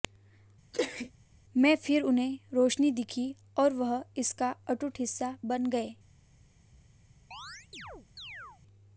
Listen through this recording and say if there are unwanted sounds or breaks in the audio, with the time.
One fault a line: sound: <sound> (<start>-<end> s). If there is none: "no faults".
sound: sneeze (0.7-1.1 s)
sound: chirp (7.3-8.6 s)